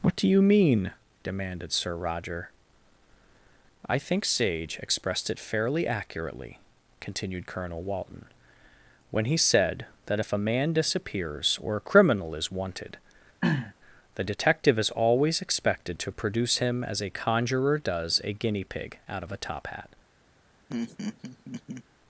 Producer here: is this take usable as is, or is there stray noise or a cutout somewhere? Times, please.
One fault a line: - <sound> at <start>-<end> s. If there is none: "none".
- throat clearing at 13.4-13.7 s
- laugh at 20.7-21.8 s